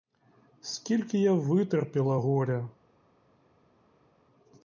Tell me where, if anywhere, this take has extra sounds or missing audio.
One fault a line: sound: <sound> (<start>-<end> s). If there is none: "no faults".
no faults